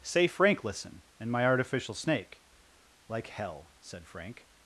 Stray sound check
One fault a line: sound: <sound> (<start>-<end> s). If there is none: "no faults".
no faults